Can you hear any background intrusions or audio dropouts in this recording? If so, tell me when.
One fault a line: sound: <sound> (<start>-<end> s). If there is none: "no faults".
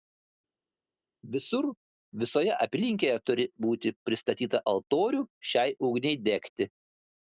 no faults